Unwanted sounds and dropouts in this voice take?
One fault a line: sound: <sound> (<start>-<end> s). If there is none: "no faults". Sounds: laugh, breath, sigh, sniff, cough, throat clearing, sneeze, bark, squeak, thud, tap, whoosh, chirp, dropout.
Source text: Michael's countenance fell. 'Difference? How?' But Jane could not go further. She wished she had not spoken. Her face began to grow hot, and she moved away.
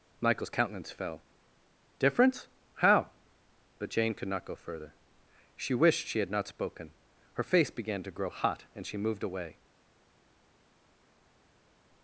no faults